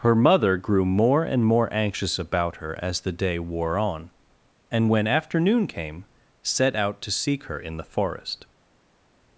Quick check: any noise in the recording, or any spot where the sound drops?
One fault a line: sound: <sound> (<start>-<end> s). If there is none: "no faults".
no faults